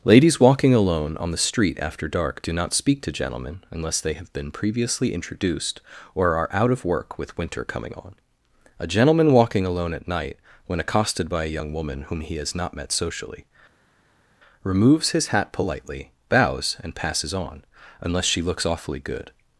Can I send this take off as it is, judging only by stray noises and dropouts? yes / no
yes